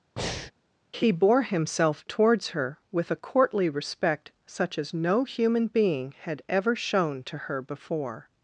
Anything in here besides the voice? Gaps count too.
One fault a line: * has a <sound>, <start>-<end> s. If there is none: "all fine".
* has a breath, 0.2-0.5 s